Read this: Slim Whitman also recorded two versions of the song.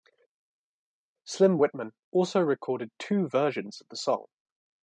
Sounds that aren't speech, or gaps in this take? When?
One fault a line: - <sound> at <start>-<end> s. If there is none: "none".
none